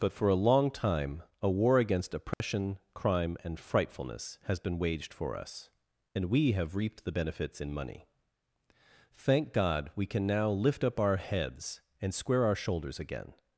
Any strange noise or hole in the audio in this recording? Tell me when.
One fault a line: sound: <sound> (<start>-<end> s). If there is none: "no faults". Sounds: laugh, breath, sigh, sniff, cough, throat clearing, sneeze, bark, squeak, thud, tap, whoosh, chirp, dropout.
sound: dropout (2.3-2.4 s)